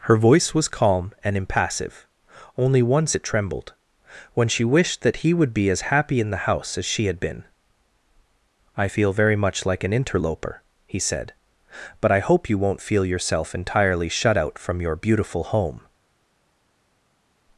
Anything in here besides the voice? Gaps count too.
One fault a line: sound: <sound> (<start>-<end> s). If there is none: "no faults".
no faults